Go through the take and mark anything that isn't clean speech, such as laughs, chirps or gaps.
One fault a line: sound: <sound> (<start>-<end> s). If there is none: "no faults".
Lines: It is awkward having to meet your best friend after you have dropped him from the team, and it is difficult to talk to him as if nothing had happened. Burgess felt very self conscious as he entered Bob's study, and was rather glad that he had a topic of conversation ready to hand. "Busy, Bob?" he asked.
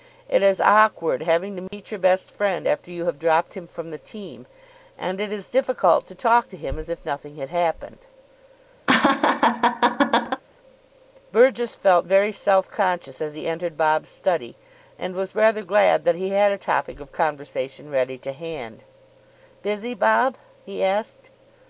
sound: dropout (1.7-1.7 s)
sound: laugh (8.9-10.4 s)